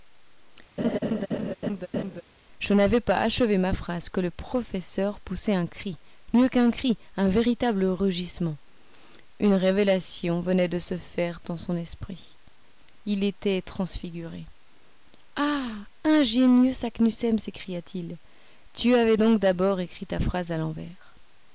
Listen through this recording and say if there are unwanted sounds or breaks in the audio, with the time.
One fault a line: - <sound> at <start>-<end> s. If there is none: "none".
- laugh at 0.8-2.2 s